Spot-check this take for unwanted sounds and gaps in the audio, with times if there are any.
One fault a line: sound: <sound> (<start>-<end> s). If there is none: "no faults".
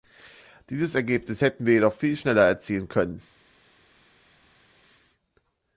no faults